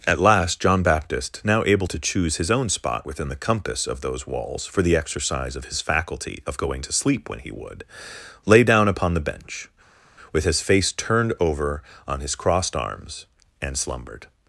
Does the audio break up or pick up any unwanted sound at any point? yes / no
no